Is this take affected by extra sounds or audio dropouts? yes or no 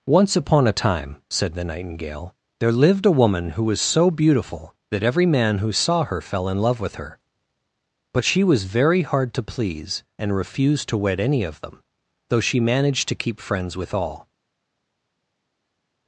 no